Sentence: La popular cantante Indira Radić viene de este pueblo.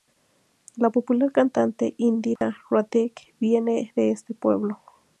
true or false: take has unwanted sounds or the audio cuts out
true